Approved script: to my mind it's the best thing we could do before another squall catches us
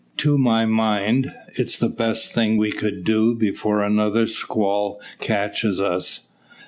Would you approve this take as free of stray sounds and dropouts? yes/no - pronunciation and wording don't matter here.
yes